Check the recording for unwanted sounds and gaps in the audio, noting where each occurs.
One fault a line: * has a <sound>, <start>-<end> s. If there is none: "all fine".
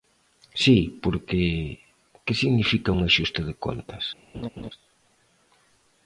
* has a laugh, 4.3-4.7 s